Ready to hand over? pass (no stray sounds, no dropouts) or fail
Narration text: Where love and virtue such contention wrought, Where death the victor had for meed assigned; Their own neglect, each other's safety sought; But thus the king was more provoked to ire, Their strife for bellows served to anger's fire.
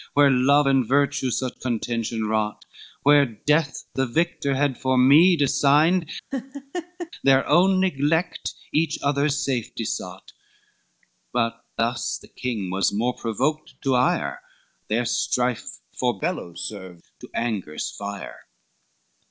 fail